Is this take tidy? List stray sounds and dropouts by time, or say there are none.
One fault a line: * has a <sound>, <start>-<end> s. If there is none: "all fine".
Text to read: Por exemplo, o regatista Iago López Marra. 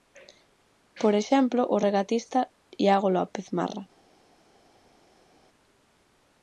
all fine